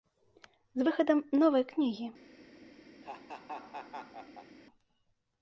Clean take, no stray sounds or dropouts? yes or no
no